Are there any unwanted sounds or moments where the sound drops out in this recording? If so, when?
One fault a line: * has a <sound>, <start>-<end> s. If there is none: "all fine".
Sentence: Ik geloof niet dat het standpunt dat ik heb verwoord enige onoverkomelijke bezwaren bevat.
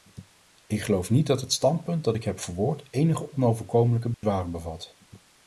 * has a dropout, 4.1-4.2 s